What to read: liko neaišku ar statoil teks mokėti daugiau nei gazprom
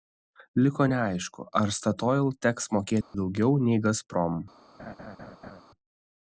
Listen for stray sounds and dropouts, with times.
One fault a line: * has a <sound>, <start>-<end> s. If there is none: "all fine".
* has a dropout, 3.0-3.1 s
* has a laugh, 4.8-5.6 s